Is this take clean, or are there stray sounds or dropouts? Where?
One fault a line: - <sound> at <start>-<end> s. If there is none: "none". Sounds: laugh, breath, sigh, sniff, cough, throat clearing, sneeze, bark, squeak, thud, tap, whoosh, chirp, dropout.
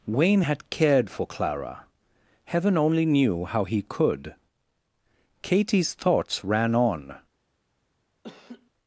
- laugh at 8.2-8.7 s